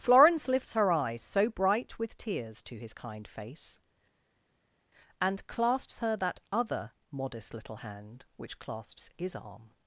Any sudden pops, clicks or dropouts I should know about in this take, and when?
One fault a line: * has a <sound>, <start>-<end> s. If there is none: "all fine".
all fine